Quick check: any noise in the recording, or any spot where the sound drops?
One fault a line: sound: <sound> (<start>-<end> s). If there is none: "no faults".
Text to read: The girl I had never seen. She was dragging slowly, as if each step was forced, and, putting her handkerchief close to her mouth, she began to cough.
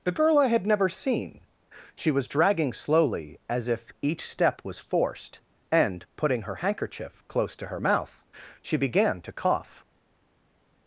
no faults